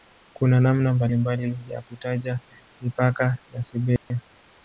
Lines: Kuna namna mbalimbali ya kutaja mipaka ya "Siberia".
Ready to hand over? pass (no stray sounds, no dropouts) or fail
fail